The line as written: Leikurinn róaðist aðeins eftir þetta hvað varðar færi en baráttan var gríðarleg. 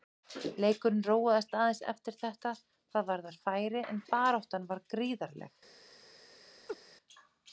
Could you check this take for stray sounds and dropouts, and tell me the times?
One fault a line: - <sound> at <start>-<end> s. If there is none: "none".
- laugh at 6.7-6.8 s